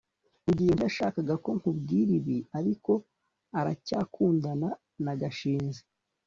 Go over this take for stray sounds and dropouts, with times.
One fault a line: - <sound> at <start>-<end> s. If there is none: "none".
none